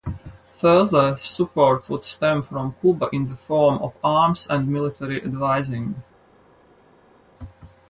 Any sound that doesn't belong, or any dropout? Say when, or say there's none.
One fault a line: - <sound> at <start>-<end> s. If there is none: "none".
none